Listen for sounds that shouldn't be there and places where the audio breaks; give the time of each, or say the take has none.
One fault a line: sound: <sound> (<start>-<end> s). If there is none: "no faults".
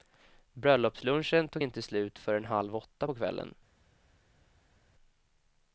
no faults